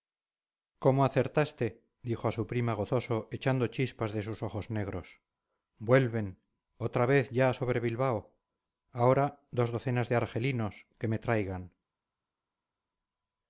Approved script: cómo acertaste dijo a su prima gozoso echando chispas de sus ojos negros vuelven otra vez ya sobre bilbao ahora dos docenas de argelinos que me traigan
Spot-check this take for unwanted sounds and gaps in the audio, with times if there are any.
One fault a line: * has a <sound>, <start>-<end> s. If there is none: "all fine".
all fine